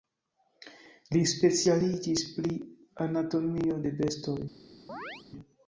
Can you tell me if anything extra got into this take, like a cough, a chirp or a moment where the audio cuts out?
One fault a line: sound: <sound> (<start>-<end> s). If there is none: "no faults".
sound: chirp (4.9-5.2 s)